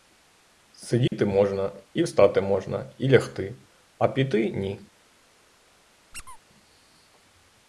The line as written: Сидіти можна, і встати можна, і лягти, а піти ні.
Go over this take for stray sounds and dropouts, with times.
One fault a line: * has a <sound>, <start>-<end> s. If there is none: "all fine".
* has a dropout, 1.1-1.1 s
* has a squeak, 6.1-6.4 s